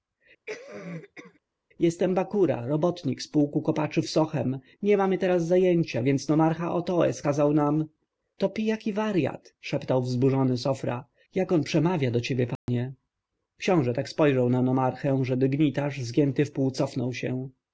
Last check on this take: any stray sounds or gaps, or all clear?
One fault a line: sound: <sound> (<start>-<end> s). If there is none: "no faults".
sound: cough (0.5-1.4 s)
sound: dropout (12.6-12.7 s)